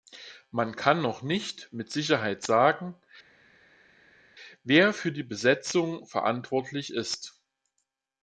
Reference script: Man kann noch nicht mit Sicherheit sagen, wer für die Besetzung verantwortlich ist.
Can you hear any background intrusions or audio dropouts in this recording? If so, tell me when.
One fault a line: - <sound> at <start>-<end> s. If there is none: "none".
none